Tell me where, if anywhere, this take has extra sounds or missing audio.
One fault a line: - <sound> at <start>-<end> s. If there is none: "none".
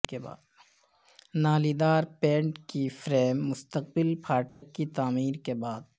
- dropout at 4.5-4.6 s